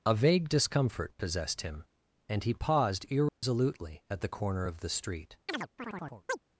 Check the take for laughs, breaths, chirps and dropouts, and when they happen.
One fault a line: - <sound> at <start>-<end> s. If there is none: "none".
- dropout at 3.3-3.4 s
- chirp at 5.5-6.4 s